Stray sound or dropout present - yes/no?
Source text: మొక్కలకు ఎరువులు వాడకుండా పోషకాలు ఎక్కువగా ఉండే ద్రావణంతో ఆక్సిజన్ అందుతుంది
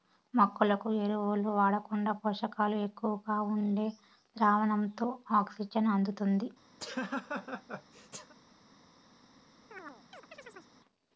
yes